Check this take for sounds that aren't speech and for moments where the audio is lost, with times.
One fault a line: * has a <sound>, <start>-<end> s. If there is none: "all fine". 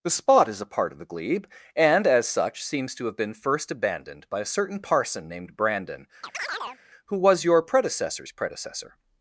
* has a chirp, 6.2-6.8 s